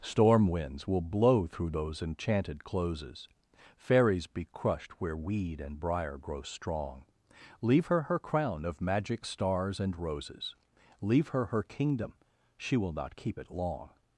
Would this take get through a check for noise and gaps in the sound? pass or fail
pass